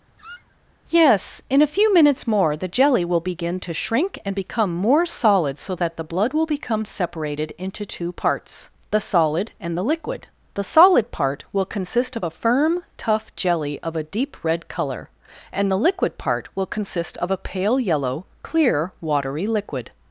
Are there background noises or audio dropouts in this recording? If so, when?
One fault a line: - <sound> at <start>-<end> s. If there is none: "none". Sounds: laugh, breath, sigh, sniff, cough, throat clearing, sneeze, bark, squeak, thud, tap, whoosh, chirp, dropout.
- squeak at 0.2-0.6 s